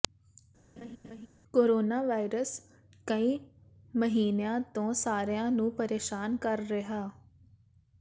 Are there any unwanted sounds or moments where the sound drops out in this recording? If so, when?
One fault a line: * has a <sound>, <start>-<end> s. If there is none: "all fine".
* has a laugh, 0.8-1.3 s